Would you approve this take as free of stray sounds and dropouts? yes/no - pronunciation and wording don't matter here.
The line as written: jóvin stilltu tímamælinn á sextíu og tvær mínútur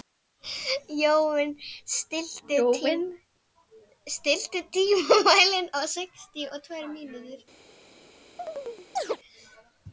no